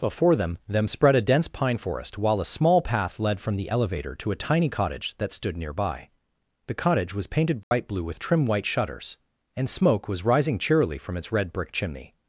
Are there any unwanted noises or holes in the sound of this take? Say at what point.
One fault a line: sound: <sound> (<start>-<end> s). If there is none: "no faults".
sound: dropout (7.6-7.7 s)